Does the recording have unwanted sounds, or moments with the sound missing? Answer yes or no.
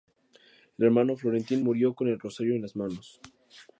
no